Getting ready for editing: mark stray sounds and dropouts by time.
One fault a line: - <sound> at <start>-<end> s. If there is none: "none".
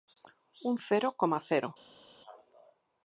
none